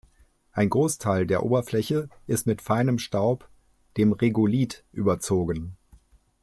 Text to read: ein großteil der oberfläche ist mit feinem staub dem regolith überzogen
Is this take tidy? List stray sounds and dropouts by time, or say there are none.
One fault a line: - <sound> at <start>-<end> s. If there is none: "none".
none